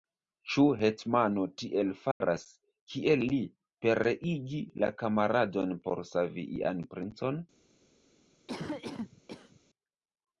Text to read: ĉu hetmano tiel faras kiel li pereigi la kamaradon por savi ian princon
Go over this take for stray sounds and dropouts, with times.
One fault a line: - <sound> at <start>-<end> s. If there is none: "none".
- dropout at 2.1-2.2 s
- cough at 8.5-9.6 s